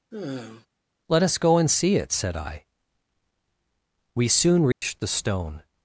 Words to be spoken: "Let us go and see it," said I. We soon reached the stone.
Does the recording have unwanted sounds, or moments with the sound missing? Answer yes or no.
yes